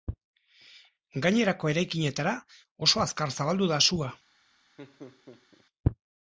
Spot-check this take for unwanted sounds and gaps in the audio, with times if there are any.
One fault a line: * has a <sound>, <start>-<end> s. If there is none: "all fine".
* has a laugh, 4.8-5.7 s